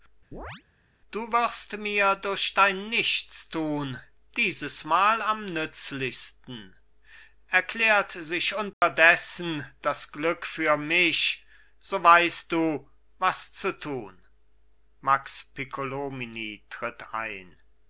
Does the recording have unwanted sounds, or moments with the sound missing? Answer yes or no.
yes